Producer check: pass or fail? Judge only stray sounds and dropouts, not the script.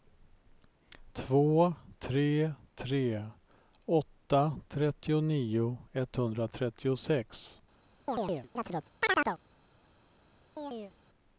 fail